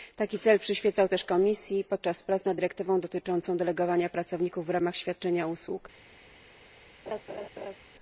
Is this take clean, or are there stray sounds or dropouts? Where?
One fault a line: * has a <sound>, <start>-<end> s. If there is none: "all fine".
* has a laugh, 7.1-7.8 s